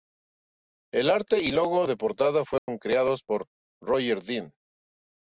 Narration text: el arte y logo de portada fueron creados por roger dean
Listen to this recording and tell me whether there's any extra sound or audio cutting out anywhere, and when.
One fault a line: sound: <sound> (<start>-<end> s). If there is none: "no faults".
sound: dropout (2.6-2.7 s)